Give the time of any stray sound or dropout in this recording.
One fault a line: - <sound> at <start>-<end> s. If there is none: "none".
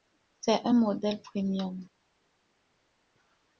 none